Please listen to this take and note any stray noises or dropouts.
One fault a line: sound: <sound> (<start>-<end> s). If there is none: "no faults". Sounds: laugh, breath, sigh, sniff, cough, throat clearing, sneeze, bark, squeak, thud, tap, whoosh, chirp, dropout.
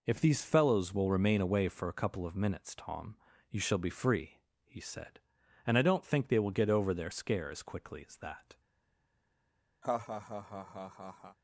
sound: laugh (9.8-11.4 s)